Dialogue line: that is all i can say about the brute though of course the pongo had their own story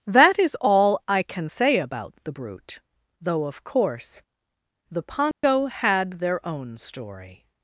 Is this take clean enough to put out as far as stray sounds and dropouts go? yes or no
no